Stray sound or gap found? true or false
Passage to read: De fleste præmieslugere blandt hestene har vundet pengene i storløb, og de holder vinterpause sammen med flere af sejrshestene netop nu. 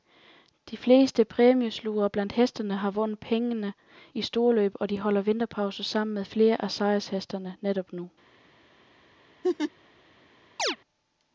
true